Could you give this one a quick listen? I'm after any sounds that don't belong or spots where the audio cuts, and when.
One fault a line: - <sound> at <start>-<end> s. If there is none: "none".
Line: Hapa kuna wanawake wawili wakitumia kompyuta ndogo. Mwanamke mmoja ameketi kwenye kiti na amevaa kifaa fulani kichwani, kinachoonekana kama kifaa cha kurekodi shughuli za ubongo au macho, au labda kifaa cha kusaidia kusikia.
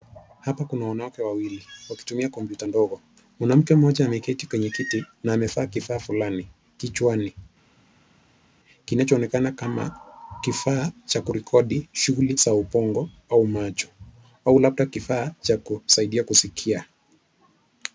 none